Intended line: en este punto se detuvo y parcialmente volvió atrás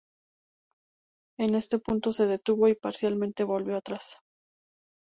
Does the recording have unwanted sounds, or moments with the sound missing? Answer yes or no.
no